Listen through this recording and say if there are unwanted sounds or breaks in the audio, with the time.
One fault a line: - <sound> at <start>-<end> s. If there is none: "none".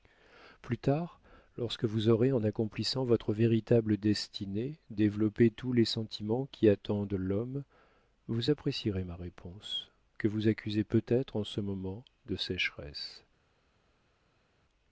none